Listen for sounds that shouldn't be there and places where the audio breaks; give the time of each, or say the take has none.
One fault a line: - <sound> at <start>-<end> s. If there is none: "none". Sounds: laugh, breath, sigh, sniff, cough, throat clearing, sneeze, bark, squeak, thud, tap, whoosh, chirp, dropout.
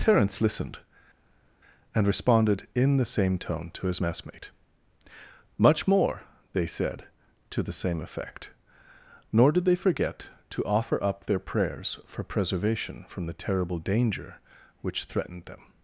none